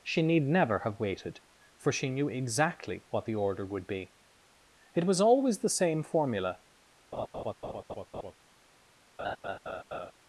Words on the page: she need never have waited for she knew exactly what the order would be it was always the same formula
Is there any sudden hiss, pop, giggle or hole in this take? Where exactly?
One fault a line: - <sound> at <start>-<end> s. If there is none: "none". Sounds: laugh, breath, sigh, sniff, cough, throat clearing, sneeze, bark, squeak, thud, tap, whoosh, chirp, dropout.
- laugh at 7.1-8.3 s
- laugh at 9.2-10.1 s